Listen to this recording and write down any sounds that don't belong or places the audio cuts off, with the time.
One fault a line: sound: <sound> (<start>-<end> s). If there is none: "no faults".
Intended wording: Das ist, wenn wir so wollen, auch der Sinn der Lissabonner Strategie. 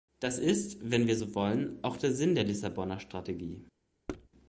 sound: thud (4.1-4.3 s)